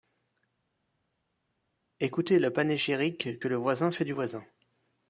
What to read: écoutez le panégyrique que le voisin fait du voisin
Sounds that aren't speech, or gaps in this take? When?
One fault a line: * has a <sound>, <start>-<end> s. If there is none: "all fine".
all fine